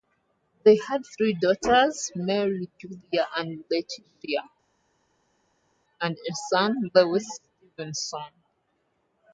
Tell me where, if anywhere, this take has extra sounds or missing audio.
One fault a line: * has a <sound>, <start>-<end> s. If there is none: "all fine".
all fine